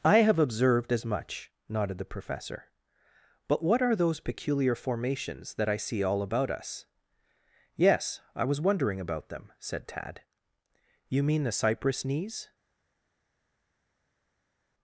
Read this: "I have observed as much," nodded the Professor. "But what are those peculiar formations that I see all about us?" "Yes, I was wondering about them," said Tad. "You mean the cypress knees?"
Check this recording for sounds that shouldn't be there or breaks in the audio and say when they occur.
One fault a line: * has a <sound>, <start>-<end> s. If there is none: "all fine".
all fine